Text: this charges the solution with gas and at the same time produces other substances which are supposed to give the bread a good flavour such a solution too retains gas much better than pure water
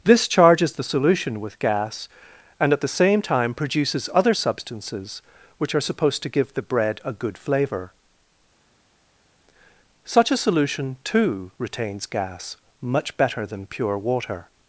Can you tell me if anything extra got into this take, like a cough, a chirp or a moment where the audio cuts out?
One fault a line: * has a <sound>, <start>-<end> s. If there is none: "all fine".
all fine